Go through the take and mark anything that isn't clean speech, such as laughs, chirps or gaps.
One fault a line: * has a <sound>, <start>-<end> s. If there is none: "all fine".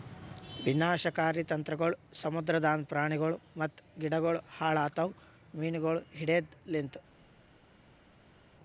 all fine